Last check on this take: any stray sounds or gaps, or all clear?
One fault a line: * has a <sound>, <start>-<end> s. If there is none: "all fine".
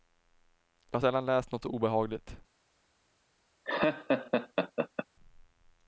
* has a laugh, 3.6-5.1 s